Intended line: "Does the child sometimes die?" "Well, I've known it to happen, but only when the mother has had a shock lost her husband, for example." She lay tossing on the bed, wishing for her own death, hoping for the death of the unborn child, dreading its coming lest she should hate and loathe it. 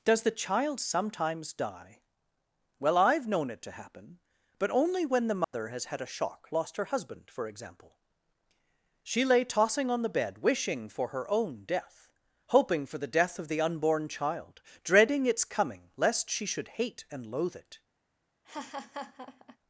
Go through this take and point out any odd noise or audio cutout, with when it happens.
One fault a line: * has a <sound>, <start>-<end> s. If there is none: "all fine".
* has a dropout, 5.4-5.5 s
* has a laugh, 18.4-19.6 s